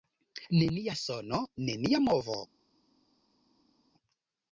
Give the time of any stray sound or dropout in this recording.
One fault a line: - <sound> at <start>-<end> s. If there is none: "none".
none